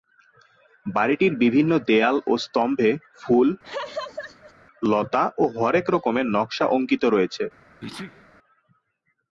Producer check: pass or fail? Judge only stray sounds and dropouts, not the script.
fail